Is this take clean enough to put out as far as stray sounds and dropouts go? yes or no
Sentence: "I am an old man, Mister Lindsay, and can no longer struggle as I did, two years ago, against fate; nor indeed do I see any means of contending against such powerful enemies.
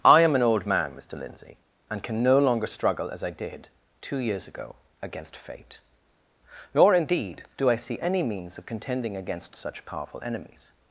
yes